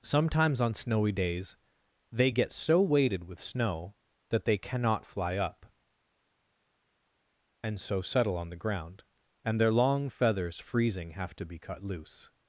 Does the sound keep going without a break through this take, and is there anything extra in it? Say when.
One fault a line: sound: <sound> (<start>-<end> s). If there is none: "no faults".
no faults